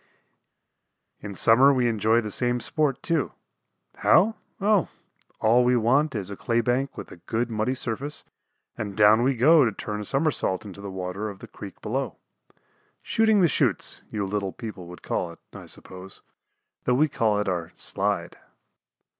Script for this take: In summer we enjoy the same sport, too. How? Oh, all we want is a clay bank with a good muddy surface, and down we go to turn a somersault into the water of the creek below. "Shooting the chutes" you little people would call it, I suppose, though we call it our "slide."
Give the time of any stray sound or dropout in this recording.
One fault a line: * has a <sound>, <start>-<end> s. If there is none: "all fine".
all fine